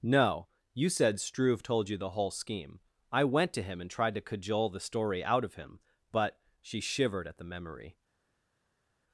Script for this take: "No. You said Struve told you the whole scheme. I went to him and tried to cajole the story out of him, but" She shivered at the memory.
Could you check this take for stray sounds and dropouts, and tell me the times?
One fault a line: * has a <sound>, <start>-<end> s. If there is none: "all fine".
all fine